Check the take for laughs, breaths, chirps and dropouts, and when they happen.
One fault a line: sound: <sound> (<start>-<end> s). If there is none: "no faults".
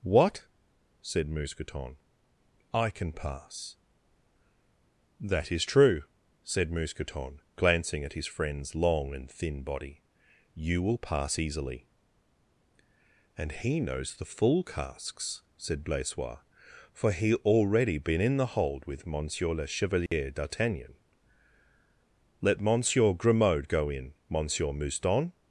sound: dropout (20.1-20.1 s)